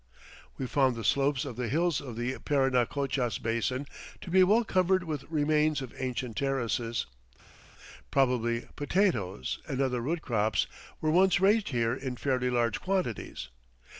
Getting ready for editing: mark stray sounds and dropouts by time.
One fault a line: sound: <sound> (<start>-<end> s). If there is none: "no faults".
no faults